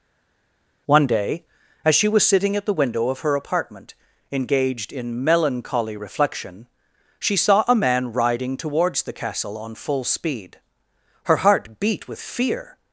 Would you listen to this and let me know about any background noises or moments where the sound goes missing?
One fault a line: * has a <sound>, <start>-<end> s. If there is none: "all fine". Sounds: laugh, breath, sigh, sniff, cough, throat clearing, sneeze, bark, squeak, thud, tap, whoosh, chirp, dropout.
all fine